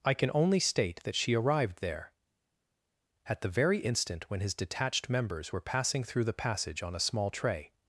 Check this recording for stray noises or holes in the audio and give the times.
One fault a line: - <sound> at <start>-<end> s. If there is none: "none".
none